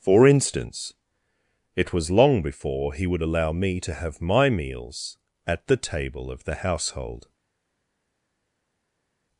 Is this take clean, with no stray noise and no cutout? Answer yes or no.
yes